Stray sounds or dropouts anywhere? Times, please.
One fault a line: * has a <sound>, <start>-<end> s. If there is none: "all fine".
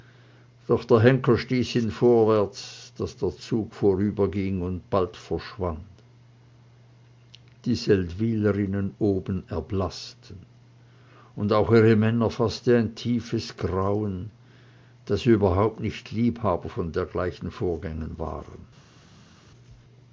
all fine